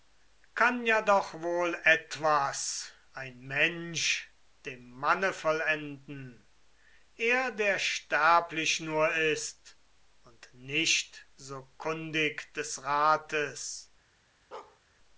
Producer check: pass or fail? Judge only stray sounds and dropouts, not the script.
fail